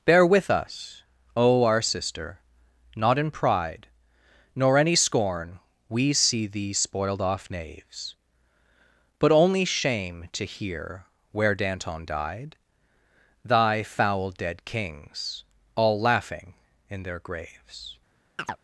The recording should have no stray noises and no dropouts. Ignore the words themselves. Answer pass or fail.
fail